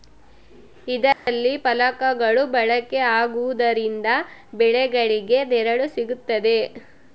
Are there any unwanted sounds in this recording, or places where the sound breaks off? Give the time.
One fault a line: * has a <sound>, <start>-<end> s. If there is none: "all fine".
* has a dropout, 1.1-1.3 s